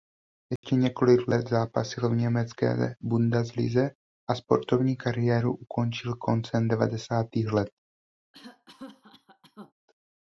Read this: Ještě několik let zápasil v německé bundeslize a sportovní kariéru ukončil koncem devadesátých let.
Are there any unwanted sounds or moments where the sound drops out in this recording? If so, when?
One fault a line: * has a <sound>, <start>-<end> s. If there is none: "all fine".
* has a dropout, 0.6-0.6 s
* has a cough, 8.3-9.7 s